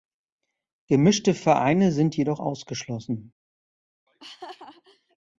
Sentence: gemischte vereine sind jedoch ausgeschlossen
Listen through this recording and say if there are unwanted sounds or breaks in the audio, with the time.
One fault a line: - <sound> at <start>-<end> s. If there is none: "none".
- laugh at 4.1-5.2 s